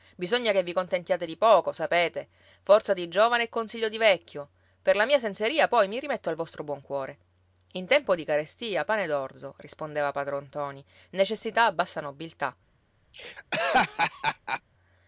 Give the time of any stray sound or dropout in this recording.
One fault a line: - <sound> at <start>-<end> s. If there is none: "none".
- laugh at 13.1-14.6 s